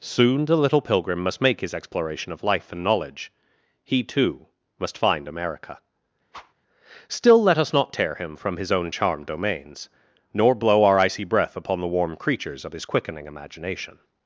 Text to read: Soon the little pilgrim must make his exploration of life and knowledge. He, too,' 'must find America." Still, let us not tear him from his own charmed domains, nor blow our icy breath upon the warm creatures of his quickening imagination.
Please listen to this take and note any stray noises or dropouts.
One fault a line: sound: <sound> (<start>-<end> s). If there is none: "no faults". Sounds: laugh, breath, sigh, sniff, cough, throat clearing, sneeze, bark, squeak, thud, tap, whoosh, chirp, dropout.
sound: whoosh (6.3-6.5 s)